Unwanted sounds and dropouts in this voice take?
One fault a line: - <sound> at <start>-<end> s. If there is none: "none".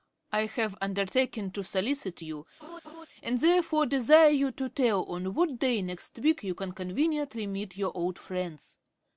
- laugh at 2.6-3.1 s